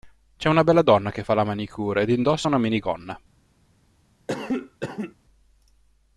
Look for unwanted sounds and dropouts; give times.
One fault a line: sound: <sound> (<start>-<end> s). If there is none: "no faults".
sound: cough (4.3-5.2 s)